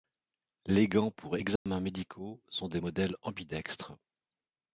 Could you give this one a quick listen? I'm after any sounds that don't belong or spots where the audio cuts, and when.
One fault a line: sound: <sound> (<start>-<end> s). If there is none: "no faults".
sound: dropout (1.6-1.7 s)